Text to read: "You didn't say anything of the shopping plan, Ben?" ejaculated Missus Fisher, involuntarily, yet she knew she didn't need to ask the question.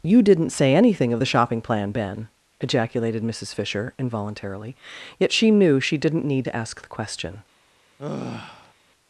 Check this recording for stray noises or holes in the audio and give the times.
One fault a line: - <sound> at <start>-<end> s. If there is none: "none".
- sigh at 8.0-8.7 s